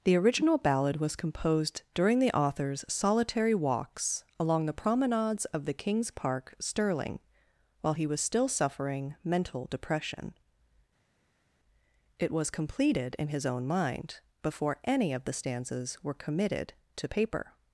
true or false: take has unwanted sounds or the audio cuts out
false